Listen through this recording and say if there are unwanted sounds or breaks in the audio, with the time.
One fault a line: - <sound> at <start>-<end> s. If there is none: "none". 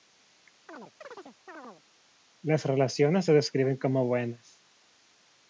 - chirp at 0.7-1.8 s